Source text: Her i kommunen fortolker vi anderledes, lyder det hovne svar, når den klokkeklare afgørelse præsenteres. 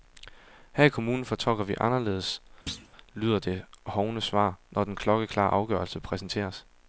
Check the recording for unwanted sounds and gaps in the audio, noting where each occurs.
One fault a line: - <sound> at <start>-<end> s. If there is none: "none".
- thud at 2.7-2.9 s